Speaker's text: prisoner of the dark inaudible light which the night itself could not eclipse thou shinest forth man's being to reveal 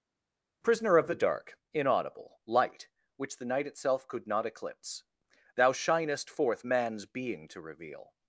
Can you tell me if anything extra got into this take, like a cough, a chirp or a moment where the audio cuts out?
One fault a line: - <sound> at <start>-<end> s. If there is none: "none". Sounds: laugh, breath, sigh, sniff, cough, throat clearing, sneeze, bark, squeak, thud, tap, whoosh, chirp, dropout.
none